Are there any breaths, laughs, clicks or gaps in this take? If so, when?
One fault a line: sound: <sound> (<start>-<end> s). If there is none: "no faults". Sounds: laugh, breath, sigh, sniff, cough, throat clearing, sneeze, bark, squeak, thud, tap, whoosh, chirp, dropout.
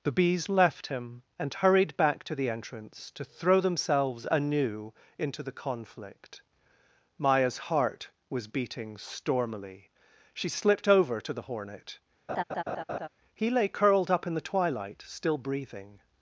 sound: laugh (12.3-13.1 s)